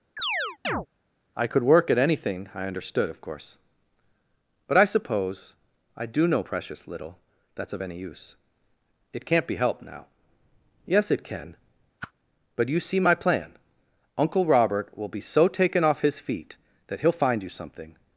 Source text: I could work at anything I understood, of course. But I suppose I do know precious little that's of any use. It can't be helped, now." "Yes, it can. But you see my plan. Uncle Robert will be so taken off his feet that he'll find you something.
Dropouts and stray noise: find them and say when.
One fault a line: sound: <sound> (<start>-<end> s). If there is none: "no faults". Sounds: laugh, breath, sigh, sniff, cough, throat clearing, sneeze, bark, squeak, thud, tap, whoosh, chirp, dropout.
sound: chirp (0.2-0.9 s)
sound: whoosh (12.0-12.1 s)